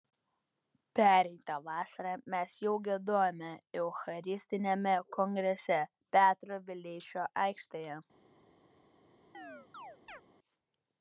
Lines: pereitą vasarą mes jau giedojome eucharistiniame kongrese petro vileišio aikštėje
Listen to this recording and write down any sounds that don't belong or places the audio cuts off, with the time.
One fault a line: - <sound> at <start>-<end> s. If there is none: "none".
- chirp at 9.3-10.2 s